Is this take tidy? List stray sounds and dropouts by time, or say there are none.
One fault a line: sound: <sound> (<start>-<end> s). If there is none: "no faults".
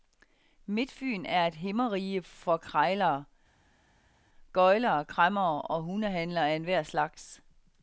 no faults